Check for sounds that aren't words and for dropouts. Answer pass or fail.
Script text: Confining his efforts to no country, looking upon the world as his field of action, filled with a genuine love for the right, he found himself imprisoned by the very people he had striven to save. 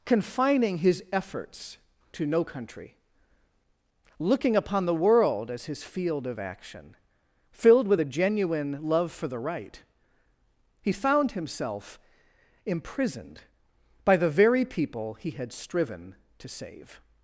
pass